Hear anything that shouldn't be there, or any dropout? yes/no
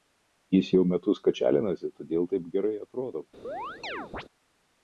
yes